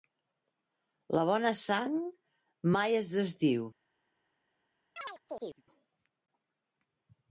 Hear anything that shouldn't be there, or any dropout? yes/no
yes